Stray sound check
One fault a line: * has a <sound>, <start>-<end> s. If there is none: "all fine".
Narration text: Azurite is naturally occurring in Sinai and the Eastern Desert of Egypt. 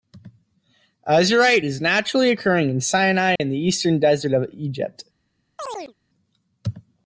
* has a dropout, 3.4-3.4 s
* has a chirp, 5.6-5.9 s